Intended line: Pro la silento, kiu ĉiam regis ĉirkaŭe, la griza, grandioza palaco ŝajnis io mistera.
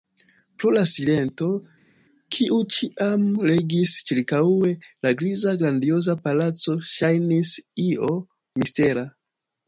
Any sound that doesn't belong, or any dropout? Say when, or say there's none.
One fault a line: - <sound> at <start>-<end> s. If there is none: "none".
none